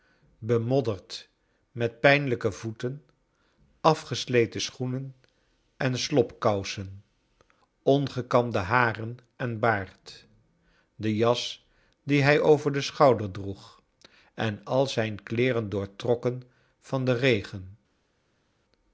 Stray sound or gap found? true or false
false